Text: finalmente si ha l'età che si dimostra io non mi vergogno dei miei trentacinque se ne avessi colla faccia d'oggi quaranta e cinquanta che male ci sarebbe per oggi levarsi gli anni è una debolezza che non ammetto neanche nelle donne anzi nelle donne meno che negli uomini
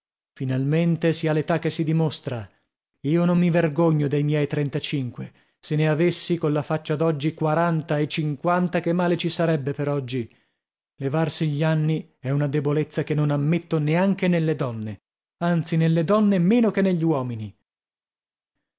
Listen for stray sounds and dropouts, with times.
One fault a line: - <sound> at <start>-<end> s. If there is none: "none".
none